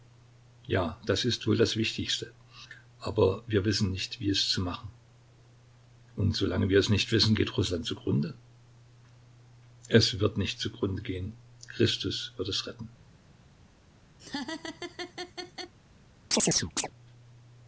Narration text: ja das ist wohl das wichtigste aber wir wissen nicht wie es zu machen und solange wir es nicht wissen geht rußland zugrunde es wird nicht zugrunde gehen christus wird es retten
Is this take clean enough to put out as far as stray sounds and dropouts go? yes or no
no